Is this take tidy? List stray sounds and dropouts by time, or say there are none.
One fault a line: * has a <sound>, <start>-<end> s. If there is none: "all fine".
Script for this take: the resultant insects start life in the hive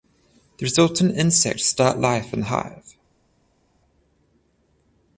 all fine